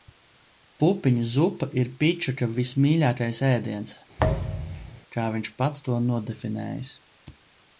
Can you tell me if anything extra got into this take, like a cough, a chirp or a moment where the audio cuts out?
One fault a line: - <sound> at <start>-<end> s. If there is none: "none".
- thud at 4.2-5.0 s